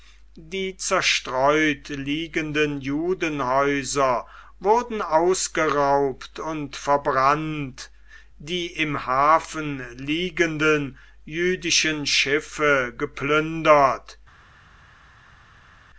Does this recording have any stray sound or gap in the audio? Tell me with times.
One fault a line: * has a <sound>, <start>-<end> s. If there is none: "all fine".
all fine